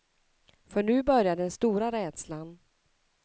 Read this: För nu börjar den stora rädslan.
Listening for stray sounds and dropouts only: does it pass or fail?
pass